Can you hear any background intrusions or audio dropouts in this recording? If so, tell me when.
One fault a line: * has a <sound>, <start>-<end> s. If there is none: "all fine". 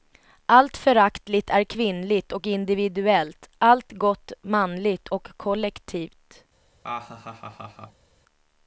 * has a laugh, 6.8-8.1 s